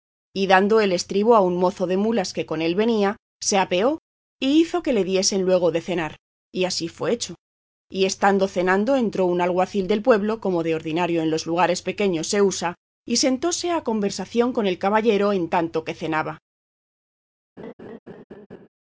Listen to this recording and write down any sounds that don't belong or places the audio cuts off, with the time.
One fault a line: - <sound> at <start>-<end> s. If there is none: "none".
- laugh at 17.6-18.7 s